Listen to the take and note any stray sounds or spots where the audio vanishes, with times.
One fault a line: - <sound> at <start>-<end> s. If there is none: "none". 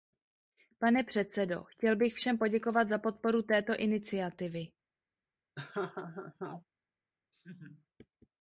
- laugh at 5.6-6.7 s
- laugh at 7.3-7.9 s